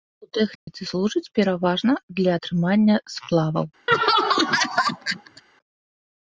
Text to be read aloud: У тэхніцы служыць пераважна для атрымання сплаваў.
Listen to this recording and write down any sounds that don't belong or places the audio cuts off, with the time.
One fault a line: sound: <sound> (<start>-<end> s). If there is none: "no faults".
sound: dropout (0.6-0.7 s)
sound: laugh (3.9-5.4 s)